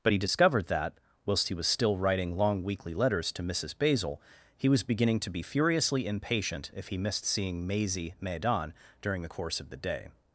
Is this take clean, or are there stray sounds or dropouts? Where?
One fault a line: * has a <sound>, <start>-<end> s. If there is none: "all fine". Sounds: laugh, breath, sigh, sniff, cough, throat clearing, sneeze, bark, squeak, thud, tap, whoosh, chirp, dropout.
all fine